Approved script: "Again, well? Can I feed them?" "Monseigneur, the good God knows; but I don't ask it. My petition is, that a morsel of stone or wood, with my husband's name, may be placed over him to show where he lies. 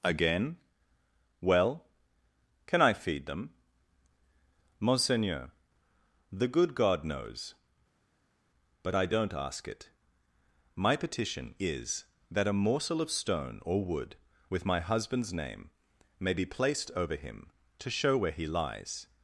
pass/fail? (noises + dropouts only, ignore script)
pass